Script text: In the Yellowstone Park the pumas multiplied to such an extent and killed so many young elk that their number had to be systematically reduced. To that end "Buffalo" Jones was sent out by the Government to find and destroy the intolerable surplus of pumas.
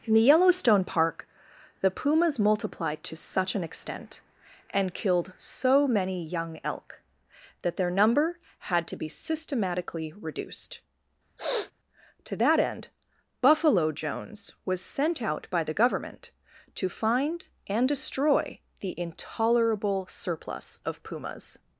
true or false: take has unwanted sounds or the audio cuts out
true